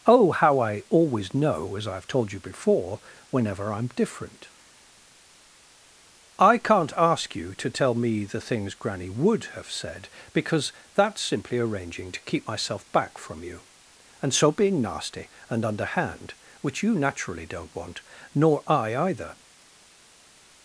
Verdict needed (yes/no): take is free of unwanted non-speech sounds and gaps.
yes